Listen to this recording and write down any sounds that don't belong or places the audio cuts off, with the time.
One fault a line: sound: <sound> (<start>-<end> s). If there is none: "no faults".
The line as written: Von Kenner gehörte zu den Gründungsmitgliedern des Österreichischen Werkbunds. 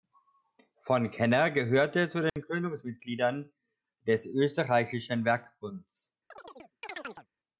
sound: dropout (2.3-2.4 s)
sound: chirp (6.3-7.3 s)